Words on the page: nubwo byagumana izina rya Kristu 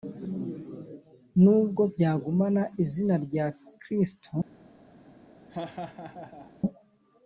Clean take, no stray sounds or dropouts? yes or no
no